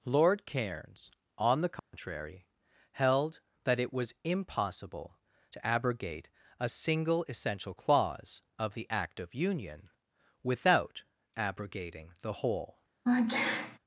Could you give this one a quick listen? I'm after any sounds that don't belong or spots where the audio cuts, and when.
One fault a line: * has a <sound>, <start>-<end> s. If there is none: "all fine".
* has a dropout, 1.8-1.9 s
* has a sneeze, 13.0-13.8 s